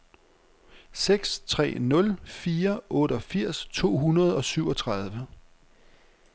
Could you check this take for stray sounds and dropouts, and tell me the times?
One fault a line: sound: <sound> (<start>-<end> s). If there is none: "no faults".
no faults